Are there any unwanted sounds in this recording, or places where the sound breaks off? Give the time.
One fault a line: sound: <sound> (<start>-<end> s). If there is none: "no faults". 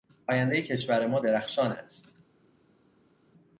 no faults